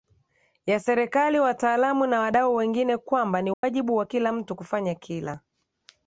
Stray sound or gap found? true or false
true